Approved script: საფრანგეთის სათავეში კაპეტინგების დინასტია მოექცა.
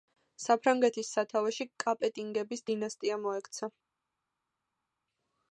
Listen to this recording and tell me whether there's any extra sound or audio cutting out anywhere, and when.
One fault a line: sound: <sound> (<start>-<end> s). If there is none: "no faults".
no faults